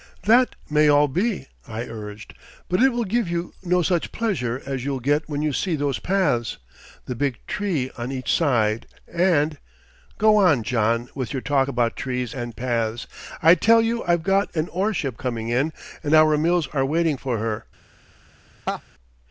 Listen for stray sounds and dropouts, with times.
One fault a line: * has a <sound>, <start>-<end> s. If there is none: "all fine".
* has a laugh, 18.7-18.8 s